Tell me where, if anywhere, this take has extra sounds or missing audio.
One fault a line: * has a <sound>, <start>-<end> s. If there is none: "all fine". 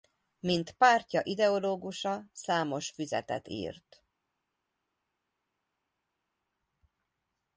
all fine